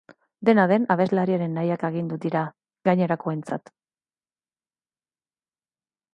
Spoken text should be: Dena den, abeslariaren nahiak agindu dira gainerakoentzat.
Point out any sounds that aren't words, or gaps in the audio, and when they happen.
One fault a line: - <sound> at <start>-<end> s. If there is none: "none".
none